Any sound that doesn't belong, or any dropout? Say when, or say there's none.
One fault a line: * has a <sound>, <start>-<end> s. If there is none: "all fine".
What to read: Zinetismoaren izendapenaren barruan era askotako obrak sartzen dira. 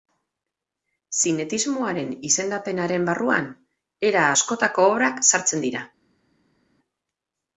all fine